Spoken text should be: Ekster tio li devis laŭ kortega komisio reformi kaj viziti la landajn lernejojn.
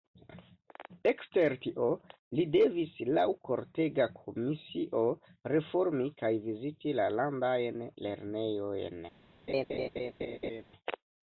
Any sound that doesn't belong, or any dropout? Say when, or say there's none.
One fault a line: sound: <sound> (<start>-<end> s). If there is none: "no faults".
sound: laugh (9.5-10.6 s)